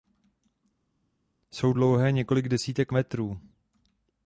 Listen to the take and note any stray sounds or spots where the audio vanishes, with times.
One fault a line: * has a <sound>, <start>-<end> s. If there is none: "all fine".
all fine